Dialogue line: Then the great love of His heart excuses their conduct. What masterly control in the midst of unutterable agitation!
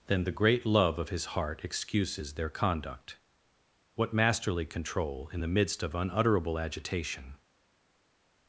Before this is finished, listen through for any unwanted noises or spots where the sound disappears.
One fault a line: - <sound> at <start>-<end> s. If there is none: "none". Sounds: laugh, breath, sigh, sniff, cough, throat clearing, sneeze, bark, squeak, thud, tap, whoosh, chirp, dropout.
none